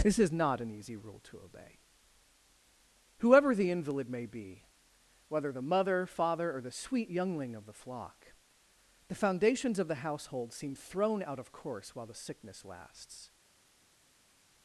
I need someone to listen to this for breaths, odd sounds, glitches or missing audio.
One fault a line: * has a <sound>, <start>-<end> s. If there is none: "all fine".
all fine